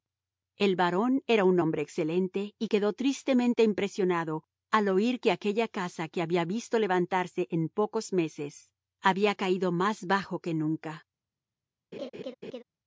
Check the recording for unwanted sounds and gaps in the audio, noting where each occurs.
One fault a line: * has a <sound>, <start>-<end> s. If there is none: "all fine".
* has a laugh, 11.9-12.6 s